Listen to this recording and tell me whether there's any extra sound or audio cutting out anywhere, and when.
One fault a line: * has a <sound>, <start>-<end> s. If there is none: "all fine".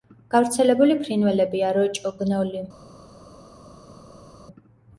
all fine